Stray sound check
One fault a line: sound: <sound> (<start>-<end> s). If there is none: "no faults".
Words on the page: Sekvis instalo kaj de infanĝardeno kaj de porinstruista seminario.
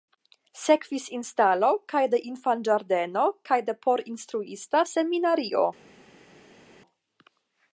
no faults